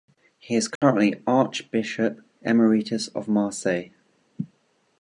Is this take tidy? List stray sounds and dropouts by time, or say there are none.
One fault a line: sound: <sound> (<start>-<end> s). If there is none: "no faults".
sound: dropout (0.8-0.8 s)